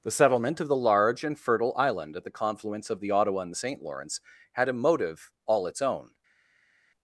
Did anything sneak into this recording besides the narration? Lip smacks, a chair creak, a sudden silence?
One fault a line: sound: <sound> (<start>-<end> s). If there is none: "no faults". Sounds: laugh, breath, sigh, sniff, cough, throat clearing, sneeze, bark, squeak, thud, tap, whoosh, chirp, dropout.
no faults